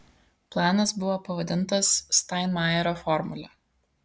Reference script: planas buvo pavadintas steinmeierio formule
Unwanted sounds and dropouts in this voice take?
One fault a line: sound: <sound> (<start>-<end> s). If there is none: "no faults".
no faults